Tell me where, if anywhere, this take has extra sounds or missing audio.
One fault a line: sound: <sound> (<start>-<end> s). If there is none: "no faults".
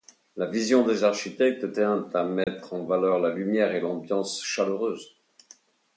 sound: dropout (2.4-2.5 s)